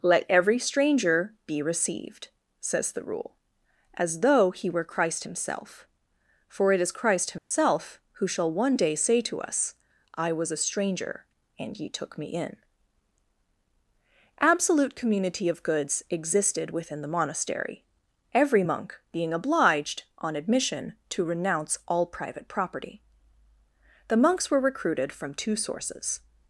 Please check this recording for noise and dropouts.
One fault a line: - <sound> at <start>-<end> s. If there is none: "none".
- dropout at 7.4-7.5 s